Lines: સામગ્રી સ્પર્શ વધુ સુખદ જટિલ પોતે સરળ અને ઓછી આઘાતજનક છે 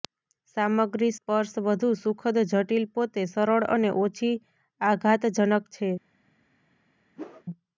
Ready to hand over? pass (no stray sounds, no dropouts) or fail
fail